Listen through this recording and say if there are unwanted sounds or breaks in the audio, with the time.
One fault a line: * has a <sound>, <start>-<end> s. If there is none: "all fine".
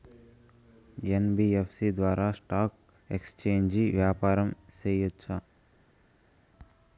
all fine